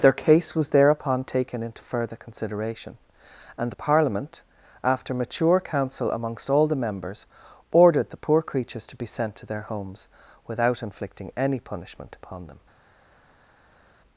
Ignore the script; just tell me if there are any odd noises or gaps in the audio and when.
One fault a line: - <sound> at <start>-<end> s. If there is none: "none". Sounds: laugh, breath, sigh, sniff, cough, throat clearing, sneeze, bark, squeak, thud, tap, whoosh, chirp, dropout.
none